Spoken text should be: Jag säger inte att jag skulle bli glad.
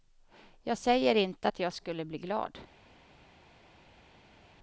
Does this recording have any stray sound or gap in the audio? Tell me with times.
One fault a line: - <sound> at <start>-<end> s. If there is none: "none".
none